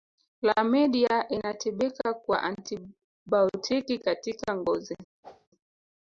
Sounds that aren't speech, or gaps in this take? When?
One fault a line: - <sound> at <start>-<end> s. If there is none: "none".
- whoosh at 5.2-5.5 s